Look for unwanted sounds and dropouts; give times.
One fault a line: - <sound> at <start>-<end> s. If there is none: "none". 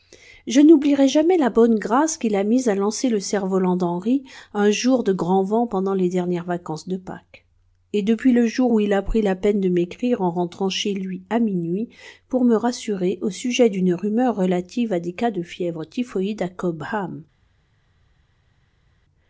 none